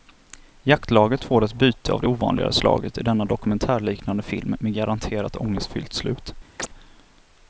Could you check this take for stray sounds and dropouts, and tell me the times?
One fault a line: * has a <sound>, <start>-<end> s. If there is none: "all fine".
* has a chirp, 6.6-6.7 s